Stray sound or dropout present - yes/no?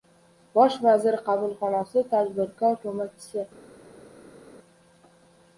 no